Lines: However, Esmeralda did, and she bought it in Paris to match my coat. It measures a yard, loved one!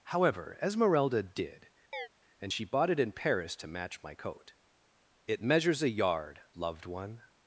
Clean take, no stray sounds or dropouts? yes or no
no